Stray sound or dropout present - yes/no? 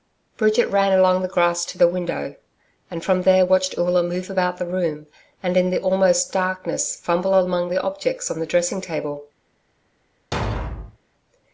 yes